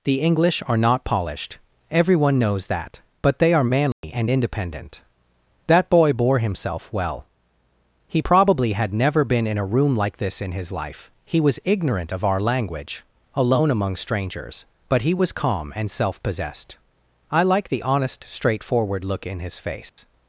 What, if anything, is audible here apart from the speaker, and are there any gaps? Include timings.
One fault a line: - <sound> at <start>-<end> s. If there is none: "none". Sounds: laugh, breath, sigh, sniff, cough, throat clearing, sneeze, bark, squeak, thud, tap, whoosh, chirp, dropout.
- dropout at 3.9-4.0 s
- dropout at 19.9-20.0 s